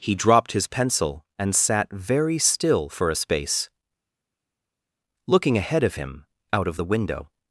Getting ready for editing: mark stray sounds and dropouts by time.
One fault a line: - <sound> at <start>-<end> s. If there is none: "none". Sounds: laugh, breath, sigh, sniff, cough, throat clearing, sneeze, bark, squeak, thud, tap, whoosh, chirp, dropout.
none